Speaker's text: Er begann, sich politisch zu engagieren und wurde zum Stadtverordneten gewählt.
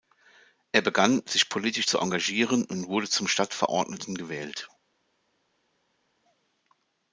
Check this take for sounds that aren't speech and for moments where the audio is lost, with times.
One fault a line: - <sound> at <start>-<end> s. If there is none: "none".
none